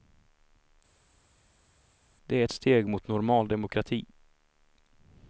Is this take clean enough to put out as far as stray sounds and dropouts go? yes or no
yes